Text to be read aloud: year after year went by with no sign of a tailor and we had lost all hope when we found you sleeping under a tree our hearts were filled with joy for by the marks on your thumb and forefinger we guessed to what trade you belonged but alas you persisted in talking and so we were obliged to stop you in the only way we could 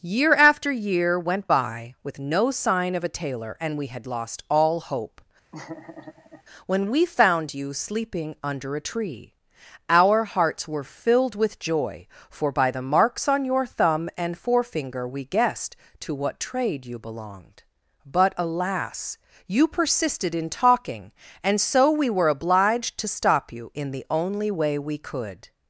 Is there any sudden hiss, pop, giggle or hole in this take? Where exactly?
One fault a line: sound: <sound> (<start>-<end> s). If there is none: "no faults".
sound: laugh (5.5-6.4 s)